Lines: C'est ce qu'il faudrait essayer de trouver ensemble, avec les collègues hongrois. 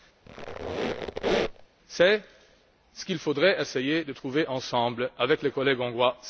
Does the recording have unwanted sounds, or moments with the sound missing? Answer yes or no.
yes